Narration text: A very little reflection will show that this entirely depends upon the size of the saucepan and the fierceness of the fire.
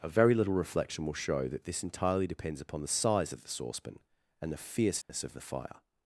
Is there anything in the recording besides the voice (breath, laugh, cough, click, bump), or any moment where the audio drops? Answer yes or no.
yes